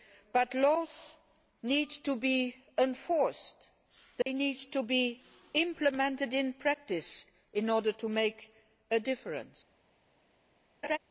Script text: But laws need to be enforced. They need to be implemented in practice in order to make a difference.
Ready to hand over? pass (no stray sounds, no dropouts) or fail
fail